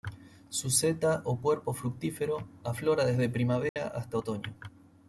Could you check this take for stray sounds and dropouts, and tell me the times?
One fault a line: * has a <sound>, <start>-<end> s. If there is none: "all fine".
* has a dropout, 3.7-3.8 s